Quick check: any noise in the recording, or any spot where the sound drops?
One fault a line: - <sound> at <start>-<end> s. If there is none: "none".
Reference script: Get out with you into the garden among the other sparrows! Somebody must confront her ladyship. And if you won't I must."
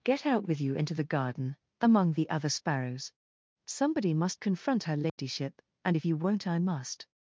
- dropout at 5.1-5.2 s